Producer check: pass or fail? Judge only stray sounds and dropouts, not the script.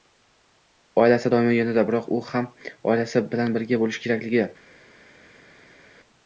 pass